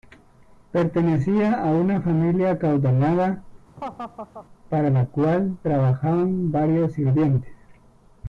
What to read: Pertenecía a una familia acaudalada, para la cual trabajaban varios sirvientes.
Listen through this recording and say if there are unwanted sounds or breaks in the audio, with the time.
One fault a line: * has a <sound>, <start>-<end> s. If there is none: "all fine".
* has a laugh, 3.8-4.5 s